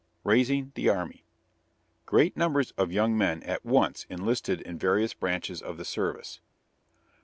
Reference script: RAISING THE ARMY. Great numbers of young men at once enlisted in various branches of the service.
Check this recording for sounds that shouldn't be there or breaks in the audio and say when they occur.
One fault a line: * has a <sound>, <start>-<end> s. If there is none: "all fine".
all fine